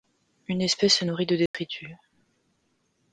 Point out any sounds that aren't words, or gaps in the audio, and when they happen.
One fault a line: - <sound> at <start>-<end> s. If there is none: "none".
- dropout at 1.5-1.5 s